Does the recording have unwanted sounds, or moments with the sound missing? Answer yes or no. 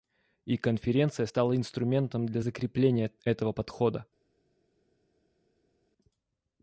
no